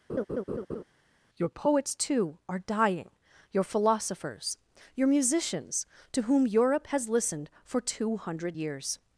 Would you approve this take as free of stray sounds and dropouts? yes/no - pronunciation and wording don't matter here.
no